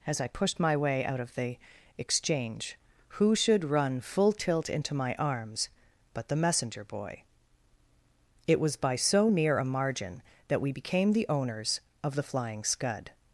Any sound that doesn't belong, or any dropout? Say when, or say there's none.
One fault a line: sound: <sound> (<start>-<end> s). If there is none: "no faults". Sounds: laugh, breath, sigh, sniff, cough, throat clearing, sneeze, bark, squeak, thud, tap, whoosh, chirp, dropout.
no faults